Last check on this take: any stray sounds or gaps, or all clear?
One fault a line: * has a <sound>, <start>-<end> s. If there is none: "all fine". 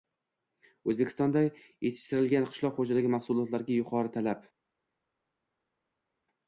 all fine